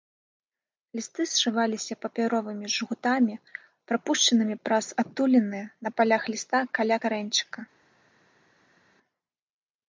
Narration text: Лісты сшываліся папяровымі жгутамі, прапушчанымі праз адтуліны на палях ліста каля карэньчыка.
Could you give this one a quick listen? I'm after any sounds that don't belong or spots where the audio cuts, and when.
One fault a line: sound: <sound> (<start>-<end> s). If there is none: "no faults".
no faults